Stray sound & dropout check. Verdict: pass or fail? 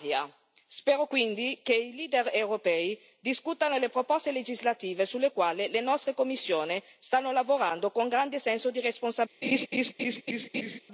fail